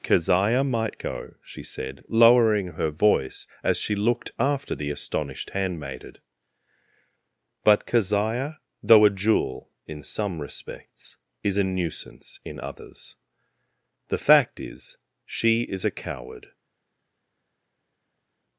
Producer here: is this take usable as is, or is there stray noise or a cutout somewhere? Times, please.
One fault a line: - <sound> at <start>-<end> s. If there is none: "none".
none